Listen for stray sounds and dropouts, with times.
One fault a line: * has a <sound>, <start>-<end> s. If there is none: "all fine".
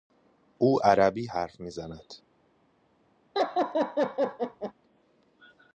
* has a laugh, 3.3-4.7 s